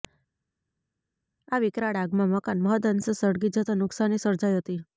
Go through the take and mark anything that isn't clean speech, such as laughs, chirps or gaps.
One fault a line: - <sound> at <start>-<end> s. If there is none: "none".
none